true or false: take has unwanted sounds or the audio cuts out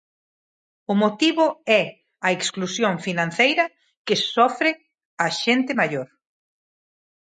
false